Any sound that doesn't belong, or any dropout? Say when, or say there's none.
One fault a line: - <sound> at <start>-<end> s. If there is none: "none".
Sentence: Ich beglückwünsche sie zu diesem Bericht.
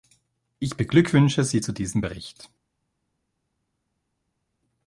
none